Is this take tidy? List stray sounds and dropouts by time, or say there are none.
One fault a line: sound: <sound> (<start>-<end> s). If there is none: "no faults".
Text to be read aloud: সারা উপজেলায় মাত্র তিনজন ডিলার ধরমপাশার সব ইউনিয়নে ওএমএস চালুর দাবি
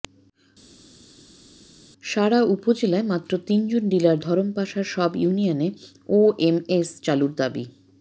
no faults